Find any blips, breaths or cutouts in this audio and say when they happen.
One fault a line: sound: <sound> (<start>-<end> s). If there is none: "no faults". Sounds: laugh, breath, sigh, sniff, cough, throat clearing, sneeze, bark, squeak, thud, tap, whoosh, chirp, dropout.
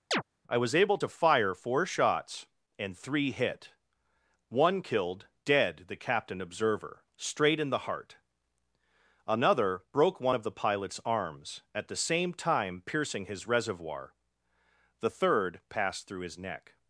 sound: chirp (0.1-0.2 s)